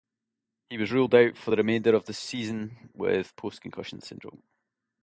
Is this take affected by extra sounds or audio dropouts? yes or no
no